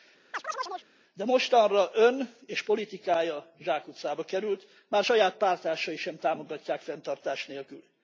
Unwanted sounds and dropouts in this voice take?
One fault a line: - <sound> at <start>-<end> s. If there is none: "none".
- chirp at 0.3-0.9 s